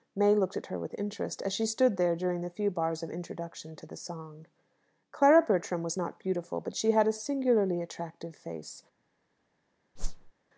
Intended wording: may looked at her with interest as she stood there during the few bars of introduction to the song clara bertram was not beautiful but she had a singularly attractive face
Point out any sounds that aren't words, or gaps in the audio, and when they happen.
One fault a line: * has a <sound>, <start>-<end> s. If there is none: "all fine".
* has a whoosh, 10.0-10.3 s